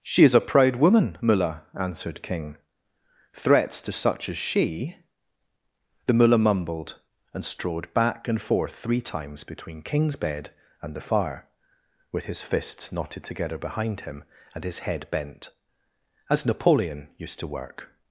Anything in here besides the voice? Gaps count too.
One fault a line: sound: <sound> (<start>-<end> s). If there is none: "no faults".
no faults